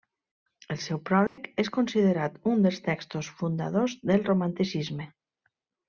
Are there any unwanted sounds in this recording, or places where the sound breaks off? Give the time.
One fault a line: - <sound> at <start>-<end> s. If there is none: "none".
- dropout at 1.3-1.4 s